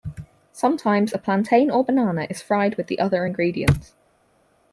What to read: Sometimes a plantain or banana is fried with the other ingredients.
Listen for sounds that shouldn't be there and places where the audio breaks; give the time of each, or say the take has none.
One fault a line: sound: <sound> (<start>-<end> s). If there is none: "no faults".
no faults